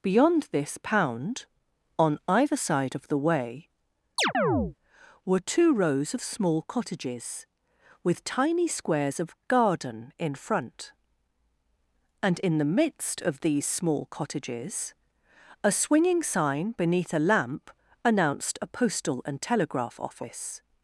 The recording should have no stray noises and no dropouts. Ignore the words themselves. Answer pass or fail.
fail